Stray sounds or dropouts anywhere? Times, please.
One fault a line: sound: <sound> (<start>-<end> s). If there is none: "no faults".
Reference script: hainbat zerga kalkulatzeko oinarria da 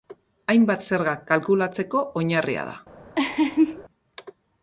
sound: laugh (3.2-3.8 s)